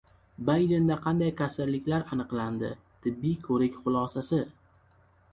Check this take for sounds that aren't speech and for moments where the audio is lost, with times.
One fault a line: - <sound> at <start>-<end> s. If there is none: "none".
none